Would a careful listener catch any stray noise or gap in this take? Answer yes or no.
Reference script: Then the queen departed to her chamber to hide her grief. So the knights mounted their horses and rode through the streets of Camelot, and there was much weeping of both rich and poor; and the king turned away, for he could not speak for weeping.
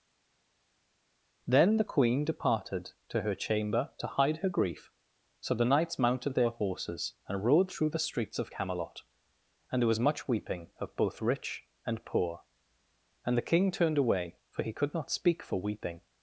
no